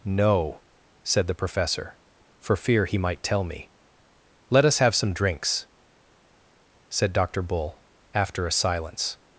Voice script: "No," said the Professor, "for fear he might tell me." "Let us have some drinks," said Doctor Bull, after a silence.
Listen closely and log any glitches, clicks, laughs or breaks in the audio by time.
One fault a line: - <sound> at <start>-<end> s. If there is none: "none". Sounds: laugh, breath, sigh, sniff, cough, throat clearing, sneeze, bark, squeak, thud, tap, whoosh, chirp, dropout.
none